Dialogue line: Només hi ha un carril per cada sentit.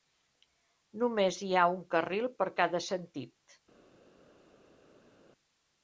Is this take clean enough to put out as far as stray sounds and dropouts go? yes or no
yes